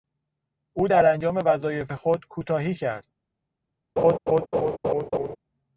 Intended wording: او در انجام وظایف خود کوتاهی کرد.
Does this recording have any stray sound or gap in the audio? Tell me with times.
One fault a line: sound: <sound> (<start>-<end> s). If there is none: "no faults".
sound: laugh (4.0-5.4 s)